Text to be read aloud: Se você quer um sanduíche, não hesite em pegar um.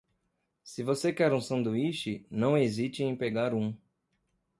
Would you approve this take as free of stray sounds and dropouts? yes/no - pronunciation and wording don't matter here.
yes